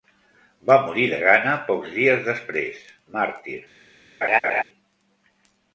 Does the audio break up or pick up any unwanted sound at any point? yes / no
yes